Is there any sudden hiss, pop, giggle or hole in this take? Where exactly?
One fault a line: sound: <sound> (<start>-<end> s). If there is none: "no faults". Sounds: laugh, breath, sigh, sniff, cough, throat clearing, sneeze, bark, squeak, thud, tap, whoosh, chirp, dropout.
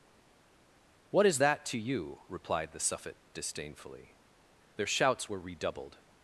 no faults